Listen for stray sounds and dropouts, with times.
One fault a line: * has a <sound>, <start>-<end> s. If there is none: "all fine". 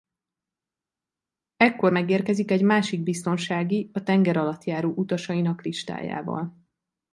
all fine